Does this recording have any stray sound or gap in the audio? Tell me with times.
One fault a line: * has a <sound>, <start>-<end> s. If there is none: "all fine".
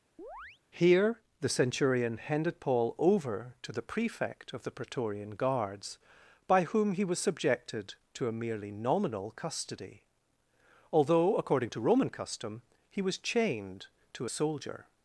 * has a chirp, 0.2-0.6 s